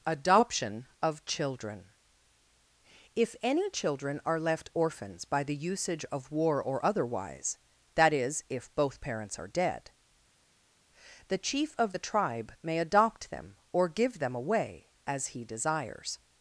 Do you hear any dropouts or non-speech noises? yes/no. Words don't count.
no